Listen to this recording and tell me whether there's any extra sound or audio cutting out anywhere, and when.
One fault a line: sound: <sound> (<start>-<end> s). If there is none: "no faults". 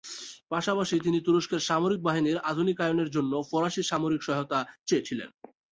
no faults